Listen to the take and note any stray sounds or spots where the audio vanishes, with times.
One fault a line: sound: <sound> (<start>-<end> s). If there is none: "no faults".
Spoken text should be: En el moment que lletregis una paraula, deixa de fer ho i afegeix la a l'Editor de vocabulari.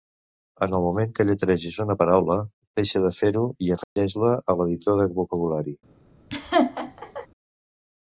sound: dropout (3.8-4.0 s)
sound: laugh (6.3-7.3 s)